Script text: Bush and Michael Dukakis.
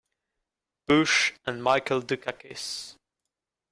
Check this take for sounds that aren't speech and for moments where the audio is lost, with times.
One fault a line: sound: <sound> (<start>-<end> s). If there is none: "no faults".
no faults